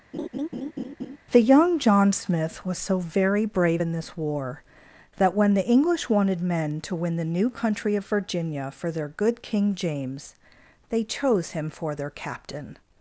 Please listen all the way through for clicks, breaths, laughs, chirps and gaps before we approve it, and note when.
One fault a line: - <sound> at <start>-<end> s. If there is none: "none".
- laugh at 0.1-1.2 s